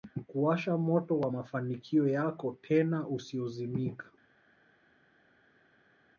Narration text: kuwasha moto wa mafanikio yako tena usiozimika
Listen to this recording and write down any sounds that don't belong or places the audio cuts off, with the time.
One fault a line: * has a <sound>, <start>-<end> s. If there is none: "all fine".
all fine